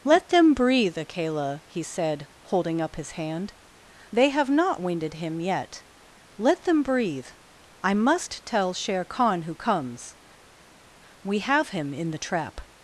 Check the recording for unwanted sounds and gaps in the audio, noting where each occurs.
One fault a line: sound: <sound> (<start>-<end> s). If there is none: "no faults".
no faults